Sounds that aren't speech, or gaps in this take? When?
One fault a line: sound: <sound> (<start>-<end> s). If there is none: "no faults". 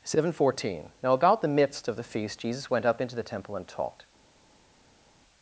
no faults